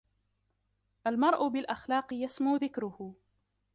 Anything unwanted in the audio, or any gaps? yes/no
no